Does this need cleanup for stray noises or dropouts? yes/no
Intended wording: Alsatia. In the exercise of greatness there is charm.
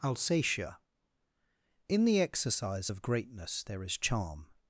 no